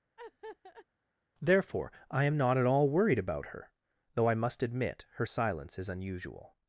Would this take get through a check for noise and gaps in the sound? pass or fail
fail